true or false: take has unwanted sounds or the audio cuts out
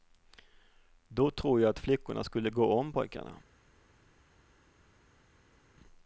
false